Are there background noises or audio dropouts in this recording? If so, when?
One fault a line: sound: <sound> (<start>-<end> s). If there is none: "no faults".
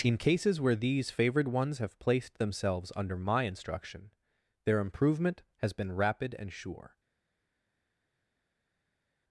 no faults